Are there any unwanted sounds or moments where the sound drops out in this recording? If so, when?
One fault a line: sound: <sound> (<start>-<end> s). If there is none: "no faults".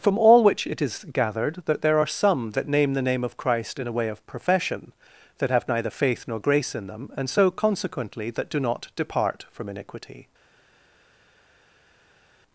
no faults